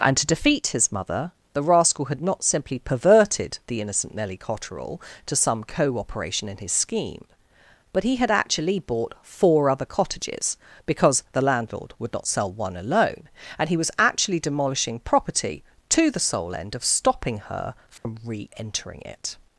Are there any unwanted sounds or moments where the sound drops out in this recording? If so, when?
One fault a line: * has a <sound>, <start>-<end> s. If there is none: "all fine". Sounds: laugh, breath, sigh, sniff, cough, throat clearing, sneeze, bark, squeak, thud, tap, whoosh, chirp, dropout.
* has a dropout, 18.0-18.1 s